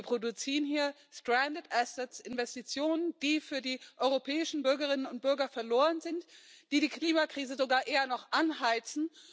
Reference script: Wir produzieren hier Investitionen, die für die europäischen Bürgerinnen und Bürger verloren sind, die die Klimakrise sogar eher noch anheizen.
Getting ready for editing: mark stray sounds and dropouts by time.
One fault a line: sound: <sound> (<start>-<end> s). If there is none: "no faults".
no faults